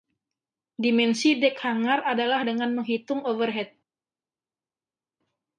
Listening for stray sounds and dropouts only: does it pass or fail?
pass